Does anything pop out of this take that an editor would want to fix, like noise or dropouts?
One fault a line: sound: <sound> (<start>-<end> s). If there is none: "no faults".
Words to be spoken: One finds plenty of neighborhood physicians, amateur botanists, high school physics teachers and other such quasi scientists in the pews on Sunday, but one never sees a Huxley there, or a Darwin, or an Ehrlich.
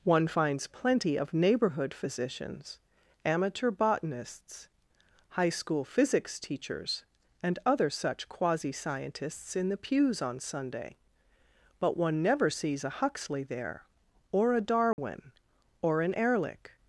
sound: dropout (14.9-15.0 s)